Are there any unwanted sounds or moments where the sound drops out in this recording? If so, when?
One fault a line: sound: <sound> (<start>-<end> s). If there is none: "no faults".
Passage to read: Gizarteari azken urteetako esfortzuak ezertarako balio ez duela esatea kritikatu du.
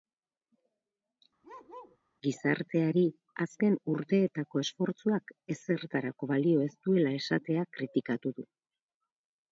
sound: bark (1.4-2.0 s)